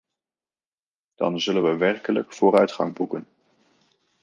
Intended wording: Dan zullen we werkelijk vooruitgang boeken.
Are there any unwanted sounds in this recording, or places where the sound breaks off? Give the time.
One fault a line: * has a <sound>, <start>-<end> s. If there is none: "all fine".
all fine